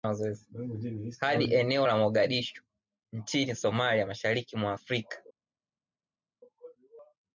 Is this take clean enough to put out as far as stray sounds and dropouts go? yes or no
yes